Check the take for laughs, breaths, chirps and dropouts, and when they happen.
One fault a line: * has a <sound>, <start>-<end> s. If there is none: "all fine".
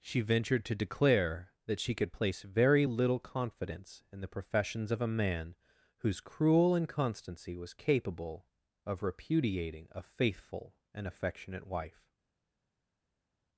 all fine